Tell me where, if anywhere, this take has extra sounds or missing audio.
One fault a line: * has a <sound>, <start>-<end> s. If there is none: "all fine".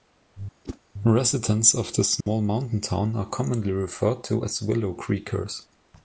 * has a whoosh, 0.6-0.8 s
* has a dropout, 2.2-2.3 s